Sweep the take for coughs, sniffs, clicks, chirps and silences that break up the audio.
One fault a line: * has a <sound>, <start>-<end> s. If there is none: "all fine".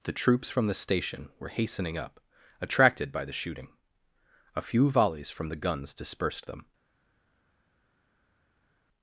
all fine